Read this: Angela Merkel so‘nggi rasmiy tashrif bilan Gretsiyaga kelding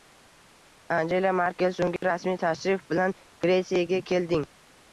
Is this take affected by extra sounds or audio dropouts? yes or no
yes